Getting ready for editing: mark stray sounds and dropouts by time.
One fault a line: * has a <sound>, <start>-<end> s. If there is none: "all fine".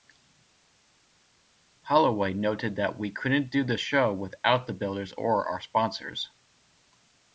all fine